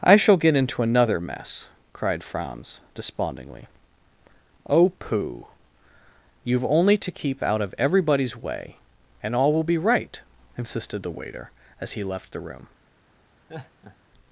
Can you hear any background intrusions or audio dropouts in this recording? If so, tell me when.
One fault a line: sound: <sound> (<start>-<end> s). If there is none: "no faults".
sound: laugh (13.5-14.0 s)